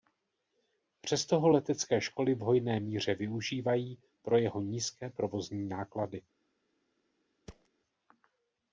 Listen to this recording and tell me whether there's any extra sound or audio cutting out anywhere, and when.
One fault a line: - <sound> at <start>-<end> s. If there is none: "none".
- thud at 7.5-7.7 s